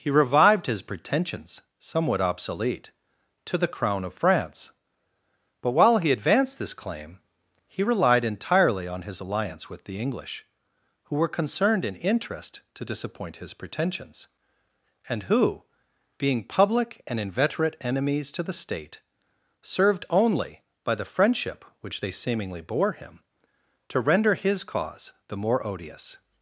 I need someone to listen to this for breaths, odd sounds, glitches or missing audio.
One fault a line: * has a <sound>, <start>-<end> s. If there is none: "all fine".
all fine